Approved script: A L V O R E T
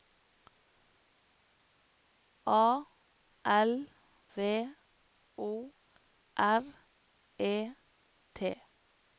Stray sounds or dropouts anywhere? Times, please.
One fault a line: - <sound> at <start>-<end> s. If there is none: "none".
none